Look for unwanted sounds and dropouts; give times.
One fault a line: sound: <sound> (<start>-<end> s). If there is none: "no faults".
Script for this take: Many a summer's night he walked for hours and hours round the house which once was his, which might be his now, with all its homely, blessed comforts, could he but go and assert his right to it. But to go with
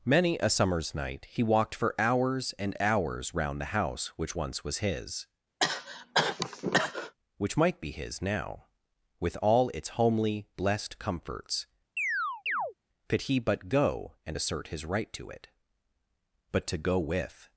sound: cough (5.6-7.2 s)
sound: chirp (12.0-12.7 s)